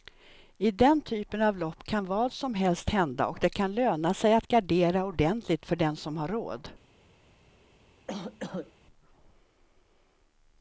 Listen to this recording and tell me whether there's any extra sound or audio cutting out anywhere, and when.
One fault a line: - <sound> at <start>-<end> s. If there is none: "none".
- cough at 8.1-8.7 s